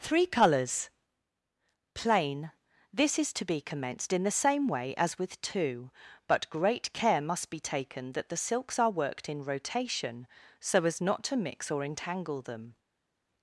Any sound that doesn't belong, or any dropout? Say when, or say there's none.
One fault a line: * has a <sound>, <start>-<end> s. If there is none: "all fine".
all fine